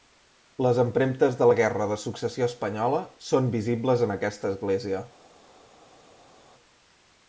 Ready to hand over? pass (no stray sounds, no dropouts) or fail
pass